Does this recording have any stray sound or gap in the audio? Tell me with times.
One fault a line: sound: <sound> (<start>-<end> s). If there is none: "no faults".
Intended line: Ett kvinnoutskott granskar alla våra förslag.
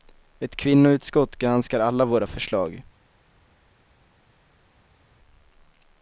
no faults